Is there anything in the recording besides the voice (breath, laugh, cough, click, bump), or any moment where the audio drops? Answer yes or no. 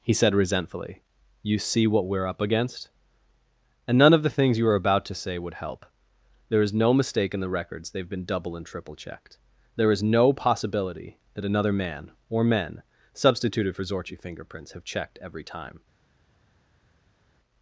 no